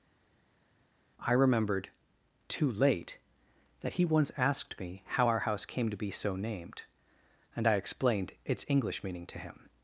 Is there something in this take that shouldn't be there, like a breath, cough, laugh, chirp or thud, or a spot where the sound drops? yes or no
no